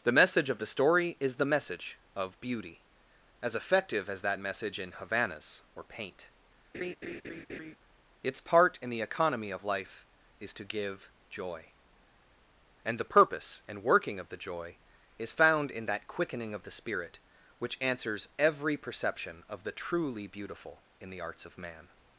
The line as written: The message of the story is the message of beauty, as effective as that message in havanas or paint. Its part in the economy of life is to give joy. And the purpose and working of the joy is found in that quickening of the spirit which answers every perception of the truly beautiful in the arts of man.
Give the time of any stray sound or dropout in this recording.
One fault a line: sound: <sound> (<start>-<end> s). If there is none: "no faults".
sound: laugh (6.7-7.8 s)